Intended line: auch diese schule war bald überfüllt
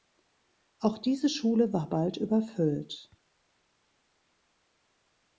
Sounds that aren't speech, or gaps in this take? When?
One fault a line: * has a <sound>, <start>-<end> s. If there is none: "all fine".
all fine